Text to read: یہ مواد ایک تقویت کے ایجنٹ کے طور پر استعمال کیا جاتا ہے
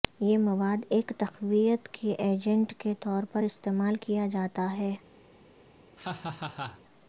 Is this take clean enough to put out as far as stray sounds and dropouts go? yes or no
no